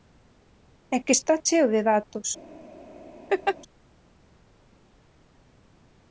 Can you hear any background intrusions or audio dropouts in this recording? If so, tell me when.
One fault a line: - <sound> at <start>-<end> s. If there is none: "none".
- laugh at 3.3-3.6 s